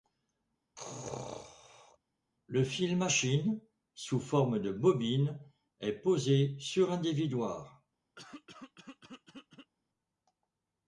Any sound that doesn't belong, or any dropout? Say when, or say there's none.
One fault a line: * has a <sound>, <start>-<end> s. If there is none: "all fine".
* has a sneeze, 0.8-2.0 s
* has a throat clearing, 8.2-9.7 s